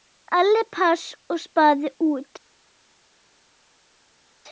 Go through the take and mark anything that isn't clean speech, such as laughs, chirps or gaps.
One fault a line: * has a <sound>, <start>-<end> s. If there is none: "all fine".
all fine